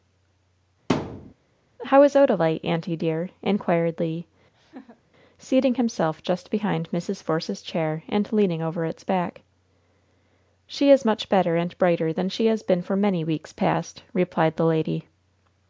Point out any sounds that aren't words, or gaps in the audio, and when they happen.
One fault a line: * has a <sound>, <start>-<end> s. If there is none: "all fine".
* has a thud, 0.9-1.3 s
* has a laugh, 4.5-5.0 s